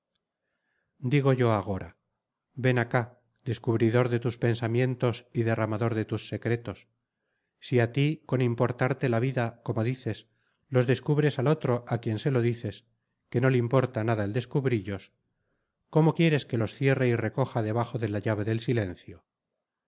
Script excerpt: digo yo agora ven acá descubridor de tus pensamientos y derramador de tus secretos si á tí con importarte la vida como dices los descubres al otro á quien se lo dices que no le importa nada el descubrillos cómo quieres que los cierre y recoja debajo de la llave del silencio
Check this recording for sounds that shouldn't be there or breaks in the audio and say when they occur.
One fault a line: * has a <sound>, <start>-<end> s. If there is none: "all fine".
all fine